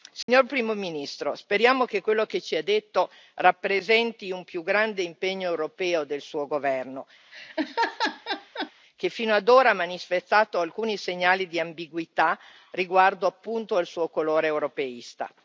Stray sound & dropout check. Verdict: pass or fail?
fail